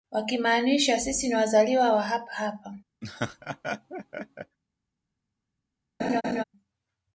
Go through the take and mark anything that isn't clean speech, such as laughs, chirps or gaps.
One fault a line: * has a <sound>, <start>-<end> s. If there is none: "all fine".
* has a laugh, 3.0-4.6 s
* has a laugh, 6.0-6.4 s